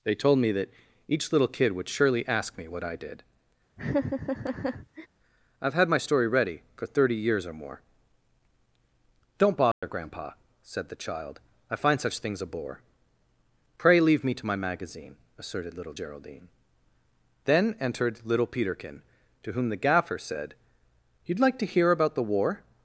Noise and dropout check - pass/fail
fail